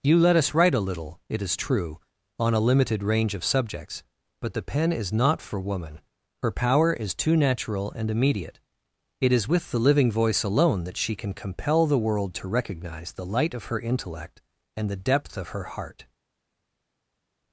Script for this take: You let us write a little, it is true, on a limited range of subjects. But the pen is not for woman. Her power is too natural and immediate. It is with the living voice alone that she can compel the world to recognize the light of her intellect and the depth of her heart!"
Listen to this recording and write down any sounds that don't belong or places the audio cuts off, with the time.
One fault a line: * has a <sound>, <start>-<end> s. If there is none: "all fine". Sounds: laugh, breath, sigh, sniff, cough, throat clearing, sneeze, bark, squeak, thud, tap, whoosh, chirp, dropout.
all fine